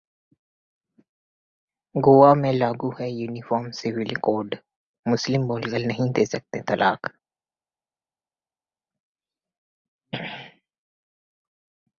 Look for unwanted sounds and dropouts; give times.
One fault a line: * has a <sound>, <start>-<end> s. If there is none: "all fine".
all fine